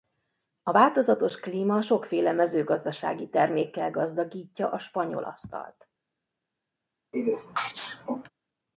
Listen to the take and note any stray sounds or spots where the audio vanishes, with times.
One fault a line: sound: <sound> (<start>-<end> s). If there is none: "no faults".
sound: sneeze (7.1-8.3 s)